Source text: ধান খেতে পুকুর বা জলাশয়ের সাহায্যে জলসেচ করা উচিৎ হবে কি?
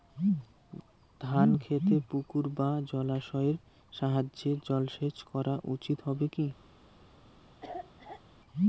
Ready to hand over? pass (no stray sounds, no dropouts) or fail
fail